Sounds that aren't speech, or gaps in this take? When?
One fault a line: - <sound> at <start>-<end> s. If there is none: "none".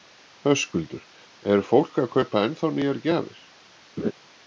- laugh at 4.0-4.1 s